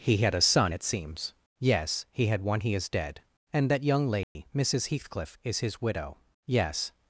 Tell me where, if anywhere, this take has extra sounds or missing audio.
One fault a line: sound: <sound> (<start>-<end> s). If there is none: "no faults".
sound: dropout (4.2-4.4 s)